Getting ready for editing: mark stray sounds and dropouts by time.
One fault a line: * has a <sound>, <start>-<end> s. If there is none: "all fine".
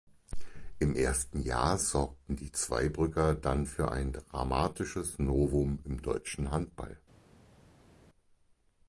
all fine